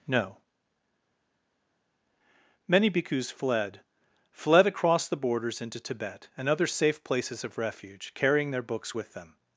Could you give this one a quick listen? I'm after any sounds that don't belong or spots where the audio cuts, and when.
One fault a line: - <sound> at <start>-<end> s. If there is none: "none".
none